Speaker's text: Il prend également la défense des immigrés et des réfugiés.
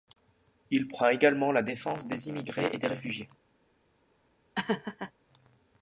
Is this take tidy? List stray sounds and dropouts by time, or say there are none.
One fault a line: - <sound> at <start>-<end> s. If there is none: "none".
- laugh at 4.5-5.1 s